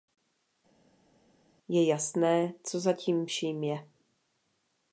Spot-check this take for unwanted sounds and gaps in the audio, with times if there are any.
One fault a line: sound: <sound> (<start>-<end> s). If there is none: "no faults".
no faults